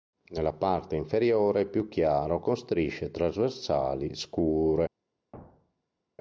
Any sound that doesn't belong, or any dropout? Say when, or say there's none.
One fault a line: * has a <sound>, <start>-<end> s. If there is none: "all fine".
* has a thud, 5.3-6.0 s